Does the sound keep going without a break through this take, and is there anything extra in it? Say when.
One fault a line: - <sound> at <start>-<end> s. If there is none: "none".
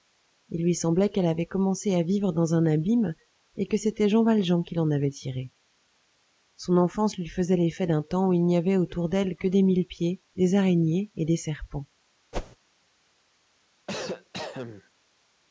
- whoosh at 12.3-12.6 s
- cough at 13.9-14.9 s